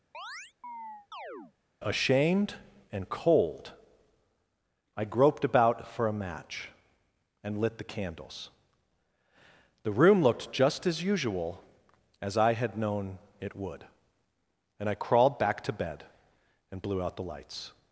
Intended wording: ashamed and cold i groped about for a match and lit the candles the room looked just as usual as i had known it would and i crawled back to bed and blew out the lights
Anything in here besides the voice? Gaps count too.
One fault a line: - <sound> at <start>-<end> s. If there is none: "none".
- chirp at 0.1-1.5 s